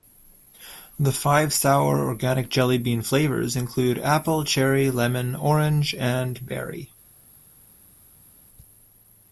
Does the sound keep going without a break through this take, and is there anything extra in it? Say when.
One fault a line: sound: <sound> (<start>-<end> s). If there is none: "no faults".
no faults